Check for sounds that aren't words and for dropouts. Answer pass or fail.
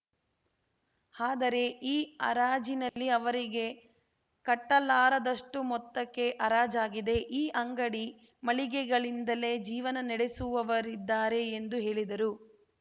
fail